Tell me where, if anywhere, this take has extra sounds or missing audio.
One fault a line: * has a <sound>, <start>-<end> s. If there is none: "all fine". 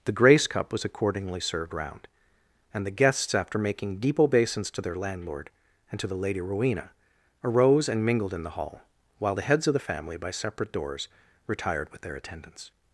all fine